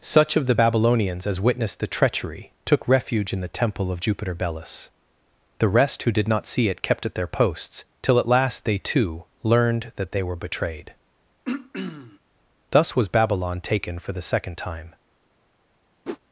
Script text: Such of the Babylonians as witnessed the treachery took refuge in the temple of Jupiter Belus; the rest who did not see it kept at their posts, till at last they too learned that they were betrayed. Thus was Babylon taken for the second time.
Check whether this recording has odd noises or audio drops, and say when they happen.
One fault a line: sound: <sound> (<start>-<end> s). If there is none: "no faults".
sound: throat clearing (11.5-12.2 s)
sound: whoosh (16.0-16.2 s)